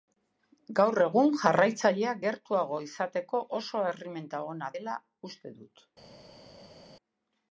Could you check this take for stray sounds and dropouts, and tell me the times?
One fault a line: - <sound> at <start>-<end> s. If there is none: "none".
none